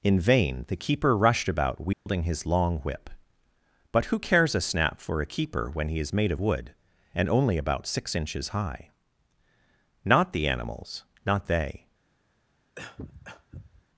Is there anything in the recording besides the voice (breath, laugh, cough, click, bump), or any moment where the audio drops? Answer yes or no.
yes